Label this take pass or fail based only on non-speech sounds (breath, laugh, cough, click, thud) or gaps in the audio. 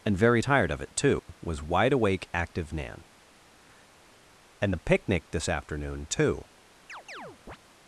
fail